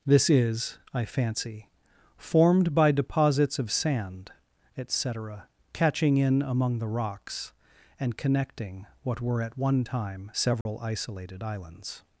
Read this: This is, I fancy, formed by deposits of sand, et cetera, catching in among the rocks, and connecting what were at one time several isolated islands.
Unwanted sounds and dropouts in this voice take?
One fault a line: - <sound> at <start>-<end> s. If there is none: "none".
- dropout at 10.6-10.7 s